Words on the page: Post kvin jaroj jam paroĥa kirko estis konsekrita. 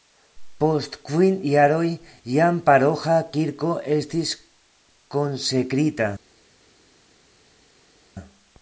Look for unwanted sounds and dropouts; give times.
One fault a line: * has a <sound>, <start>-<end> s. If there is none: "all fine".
all fine